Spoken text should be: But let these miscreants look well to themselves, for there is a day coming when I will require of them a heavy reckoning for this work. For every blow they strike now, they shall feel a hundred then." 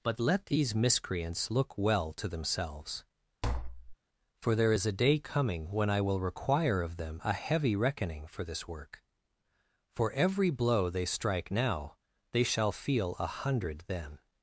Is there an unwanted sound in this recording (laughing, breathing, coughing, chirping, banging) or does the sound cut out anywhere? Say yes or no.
yes